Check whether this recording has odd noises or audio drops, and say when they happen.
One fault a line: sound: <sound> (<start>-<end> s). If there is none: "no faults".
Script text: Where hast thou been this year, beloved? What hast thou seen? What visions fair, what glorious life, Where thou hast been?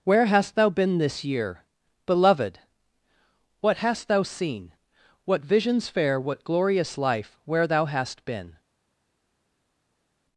no faults